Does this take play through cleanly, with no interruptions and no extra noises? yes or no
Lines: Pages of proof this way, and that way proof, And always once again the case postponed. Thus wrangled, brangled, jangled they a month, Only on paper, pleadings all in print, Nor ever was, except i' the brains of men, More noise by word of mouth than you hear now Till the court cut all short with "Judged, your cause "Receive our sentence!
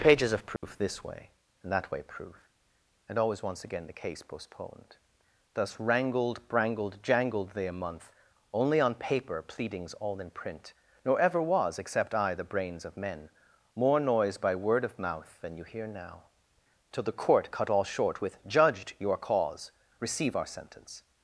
no